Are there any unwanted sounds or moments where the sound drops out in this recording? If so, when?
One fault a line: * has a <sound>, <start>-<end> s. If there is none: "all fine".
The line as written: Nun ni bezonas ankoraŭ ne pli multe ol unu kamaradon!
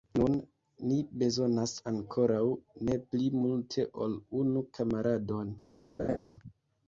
* has a laugh, 6.0-6.2 s